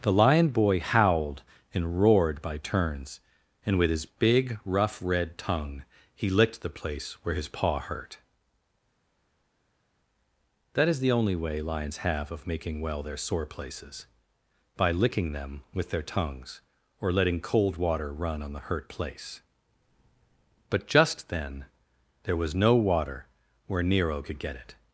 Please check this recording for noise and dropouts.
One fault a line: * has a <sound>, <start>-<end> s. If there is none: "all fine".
all fine